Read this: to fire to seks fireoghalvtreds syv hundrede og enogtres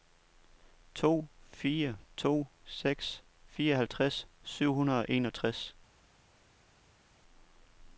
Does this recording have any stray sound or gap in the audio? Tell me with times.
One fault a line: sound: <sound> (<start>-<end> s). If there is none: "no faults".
no faults